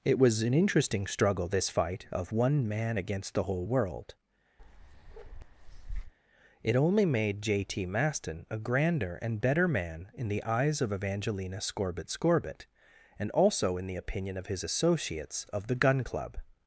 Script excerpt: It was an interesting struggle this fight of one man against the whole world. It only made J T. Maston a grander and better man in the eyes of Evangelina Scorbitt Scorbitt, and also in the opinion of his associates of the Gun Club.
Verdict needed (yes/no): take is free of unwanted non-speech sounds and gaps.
no